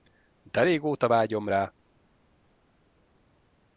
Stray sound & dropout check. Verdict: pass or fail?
pass